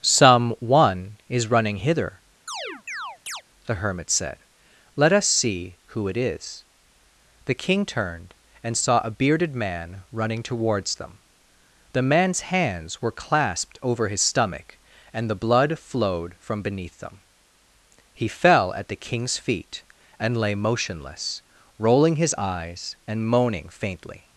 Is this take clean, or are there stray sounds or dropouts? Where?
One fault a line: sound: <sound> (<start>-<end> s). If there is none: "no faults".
sound: chirp (2.5-3.4 s)